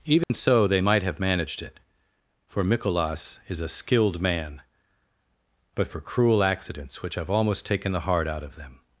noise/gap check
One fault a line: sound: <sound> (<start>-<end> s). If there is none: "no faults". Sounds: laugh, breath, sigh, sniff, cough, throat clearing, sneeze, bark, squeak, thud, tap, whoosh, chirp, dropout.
sound: dropout (0.2-0.3 s)